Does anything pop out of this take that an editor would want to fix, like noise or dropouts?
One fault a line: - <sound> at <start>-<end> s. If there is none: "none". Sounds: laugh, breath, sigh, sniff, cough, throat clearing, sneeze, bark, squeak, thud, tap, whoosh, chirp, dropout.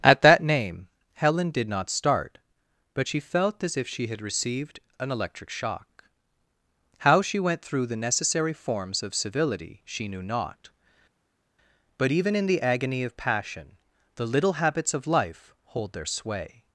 none